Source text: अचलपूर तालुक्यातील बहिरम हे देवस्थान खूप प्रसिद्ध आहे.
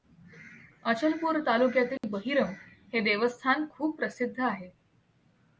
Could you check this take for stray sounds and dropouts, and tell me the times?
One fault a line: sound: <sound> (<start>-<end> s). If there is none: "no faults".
sound: dropout (2.0-2.0 s)